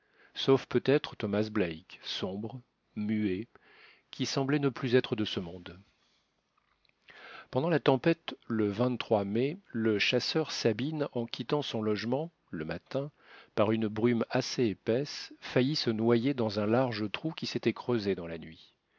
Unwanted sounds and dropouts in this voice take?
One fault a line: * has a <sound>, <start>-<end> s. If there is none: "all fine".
all fine